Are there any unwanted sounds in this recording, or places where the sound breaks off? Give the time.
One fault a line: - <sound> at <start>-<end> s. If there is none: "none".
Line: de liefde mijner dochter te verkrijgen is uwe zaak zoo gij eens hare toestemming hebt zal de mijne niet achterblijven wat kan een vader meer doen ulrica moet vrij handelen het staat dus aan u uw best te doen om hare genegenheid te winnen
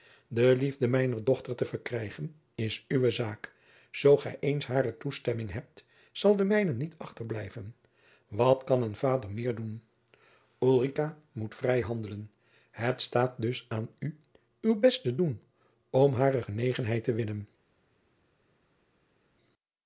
none